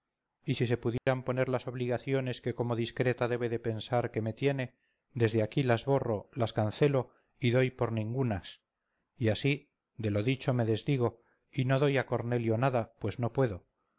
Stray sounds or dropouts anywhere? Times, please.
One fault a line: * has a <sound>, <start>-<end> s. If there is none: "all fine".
* has a dropout, 1.0-1.1 s